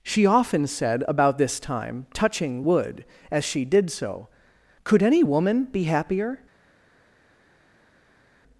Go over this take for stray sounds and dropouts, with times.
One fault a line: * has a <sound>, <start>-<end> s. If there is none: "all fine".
all fine